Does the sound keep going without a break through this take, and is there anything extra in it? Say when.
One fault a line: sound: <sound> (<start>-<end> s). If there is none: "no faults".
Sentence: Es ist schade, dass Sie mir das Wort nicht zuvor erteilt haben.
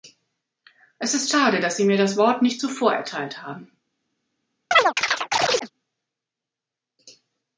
sound: chirp (4.7-5.7 s)